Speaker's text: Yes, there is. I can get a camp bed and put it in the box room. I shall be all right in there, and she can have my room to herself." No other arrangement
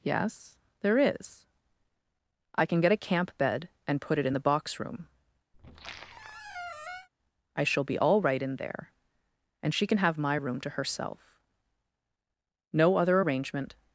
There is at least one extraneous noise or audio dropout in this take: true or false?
true